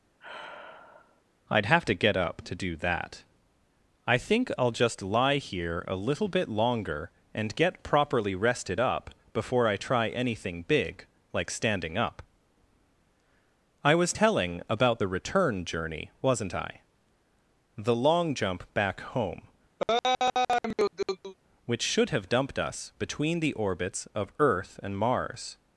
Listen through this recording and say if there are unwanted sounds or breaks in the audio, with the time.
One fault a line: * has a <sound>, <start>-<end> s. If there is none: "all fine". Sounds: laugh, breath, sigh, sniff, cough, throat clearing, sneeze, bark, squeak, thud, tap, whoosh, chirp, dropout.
* has a sigh, 0.2-1.2 s
* has a laugh, 19.8-21.3 s